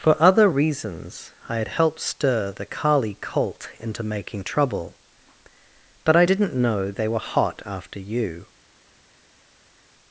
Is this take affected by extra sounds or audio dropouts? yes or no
no